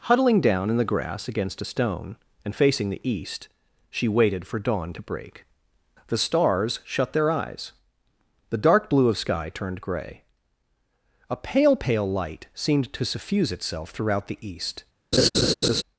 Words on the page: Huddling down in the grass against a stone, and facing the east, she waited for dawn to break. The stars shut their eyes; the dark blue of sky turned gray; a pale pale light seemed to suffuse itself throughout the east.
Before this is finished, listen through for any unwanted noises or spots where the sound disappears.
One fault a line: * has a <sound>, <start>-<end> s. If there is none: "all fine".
* has a laugh, 15.1-15.8 s